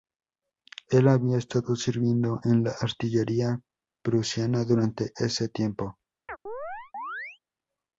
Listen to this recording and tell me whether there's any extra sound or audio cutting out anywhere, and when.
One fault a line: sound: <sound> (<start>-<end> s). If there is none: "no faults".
sound: chirp (6.3-7.4 s)